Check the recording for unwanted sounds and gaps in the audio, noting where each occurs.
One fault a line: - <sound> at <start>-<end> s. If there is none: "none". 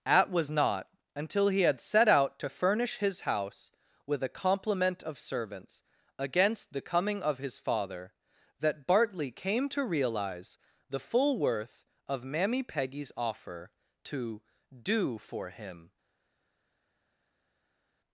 none